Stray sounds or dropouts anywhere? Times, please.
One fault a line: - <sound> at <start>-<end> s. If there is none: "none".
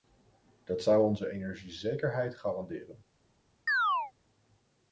- chirp at 3.7-4.1 s